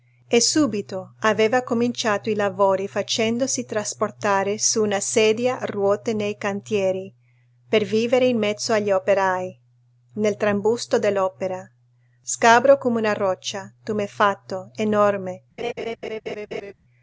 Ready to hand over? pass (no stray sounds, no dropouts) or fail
fail